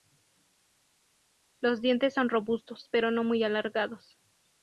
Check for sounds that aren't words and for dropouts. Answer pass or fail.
pass